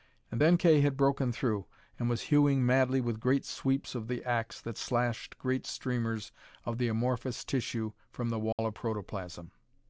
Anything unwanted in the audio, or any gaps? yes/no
yes